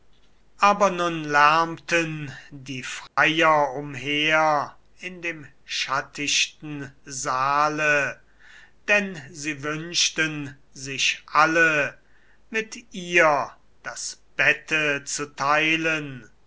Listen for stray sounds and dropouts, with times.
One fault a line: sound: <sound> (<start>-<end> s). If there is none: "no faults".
sound: dropout (3.1-3.2 s)